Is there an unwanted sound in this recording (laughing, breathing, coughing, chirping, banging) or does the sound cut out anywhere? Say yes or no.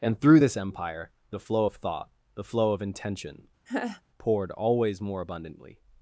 yes